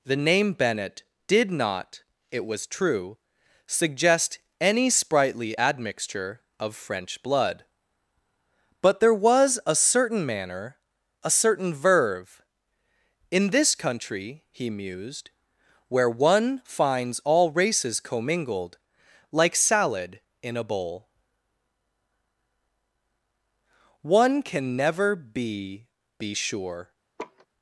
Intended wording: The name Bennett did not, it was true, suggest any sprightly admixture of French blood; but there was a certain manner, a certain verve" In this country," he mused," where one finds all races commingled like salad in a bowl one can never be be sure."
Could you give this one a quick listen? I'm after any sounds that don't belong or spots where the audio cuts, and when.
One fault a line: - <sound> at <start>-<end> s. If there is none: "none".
- laugh at 27.2-27.5 s